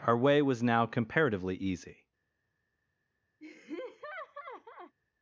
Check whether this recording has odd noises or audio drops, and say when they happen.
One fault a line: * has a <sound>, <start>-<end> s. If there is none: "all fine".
* has a laugh, 3.4-5.0 s